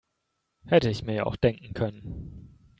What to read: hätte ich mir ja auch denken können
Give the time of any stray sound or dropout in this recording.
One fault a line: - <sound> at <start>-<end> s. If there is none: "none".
none